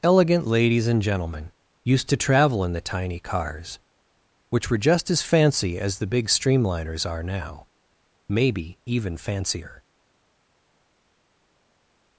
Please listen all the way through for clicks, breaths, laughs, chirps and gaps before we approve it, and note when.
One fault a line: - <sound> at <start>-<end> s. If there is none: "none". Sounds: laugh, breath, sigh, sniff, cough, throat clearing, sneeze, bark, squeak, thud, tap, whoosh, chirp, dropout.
none